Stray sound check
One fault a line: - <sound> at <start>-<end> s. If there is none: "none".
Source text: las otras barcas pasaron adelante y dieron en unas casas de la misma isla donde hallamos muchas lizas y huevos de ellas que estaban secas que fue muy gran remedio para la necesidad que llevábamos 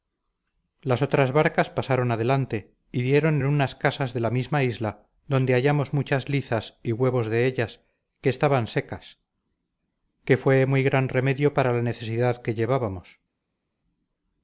none